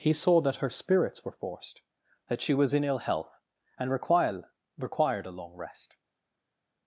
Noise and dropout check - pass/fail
pass